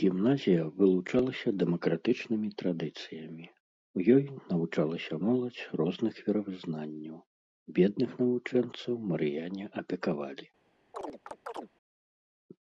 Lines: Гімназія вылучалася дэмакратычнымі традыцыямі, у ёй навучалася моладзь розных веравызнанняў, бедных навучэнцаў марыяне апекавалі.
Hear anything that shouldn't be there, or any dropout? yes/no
yes